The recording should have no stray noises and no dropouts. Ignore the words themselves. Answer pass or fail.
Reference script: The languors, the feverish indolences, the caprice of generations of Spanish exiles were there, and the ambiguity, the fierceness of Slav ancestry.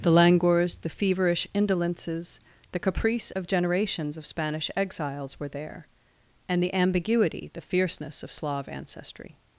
pass